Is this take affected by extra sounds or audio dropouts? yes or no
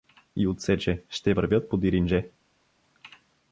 no